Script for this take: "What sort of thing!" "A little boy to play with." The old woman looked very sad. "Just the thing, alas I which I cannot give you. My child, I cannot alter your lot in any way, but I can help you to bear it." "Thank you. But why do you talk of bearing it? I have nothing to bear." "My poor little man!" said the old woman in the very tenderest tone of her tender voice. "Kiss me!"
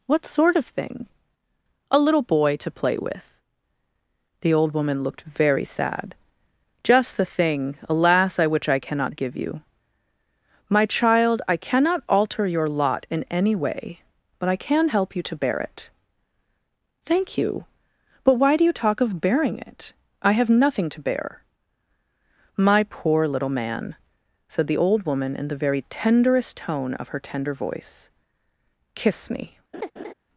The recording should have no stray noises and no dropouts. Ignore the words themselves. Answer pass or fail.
fail